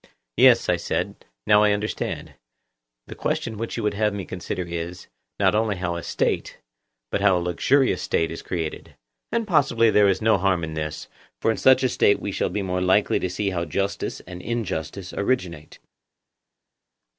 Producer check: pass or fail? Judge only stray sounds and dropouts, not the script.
pass